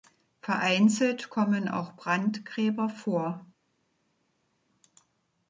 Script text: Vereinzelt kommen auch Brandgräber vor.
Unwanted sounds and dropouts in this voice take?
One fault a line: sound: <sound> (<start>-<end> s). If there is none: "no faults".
no faults